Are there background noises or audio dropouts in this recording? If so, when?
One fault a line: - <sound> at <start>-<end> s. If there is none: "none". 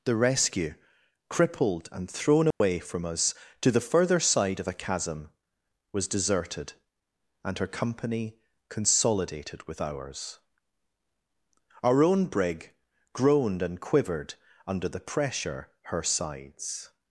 - dropout at 2.5-2.6 s